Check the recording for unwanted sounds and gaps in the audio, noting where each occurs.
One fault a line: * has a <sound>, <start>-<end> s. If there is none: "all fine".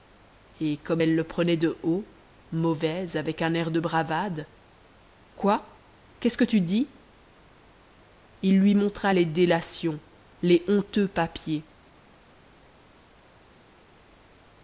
all fine